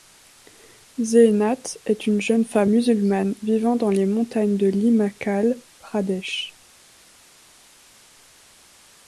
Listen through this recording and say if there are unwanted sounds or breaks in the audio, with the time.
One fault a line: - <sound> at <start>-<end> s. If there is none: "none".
none